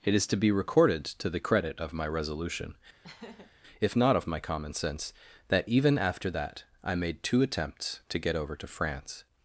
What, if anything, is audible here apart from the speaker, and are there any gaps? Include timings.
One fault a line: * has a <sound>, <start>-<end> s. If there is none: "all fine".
* has a laugh, 3.0-3.5 s